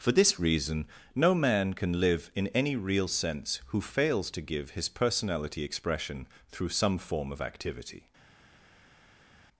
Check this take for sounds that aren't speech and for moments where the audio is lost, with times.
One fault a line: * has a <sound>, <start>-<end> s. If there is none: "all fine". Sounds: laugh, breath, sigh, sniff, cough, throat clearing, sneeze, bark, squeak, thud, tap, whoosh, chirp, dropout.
all fine